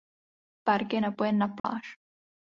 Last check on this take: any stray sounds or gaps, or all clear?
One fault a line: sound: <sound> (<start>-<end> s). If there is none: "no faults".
sound: dropout (1.6-1.6 s)